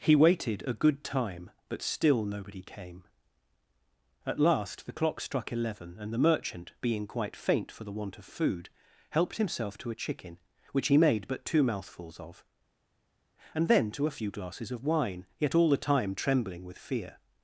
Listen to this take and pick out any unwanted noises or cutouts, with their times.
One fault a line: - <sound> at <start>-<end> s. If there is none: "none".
none